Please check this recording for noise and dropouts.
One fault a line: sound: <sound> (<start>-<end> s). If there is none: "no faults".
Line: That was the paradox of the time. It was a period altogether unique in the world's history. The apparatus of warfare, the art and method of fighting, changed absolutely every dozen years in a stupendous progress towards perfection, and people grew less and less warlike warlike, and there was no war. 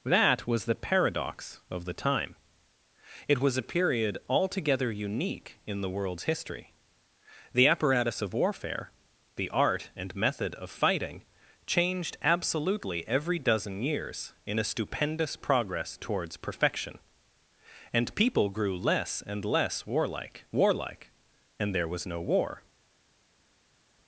no faults